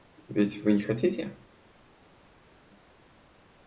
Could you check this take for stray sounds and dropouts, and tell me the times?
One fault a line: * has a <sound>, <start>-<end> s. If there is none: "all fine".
all fine